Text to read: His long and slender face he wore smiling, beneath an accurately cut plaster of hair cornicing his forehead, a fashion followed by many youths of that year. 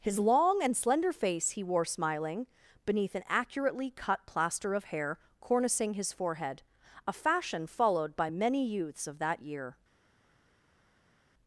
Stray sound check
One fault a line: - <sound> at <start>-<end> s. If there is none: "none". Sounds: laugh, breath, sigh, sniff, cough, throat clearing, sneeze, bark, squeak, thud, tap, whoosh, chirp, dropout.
none